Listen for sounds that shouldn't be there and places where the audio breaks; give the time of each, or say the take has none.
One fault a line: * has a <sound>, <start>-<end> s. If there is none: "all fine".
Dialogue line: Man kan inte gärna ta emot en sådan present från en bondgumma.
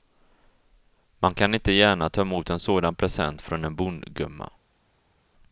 all fine